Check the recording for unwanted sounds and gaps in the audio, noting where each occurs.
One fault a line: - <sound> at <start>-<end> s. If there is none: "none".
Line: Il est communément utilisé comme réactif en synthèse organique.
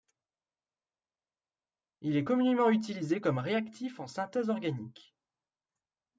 none